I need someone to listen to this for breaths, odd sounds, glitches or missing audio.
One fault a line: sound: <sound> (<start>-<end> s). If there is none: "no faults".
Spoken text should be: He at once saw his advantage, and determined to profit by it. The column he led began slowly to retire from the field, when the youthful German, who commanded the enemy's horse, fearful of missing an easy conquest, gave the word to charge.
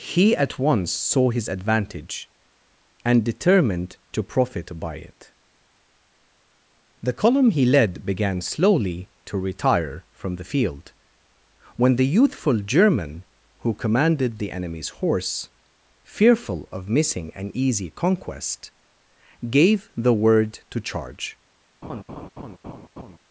sound: laugh (21.8-23.2 s)